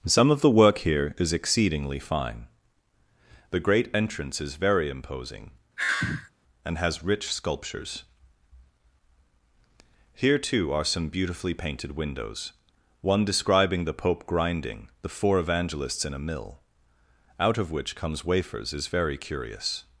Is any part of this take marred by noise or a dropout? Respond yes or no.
yes